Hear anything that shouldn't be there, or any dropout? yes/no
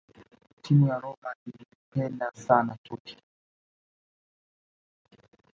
no